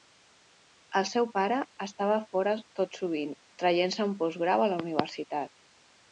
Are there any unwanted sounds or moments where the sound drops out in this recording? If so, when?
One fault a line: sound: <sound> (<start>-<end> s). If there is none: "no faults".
no faults